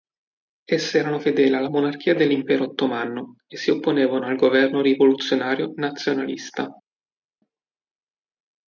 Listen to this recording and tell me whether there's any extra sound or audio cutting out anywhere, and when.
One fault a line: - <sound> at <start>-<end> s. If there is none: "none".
none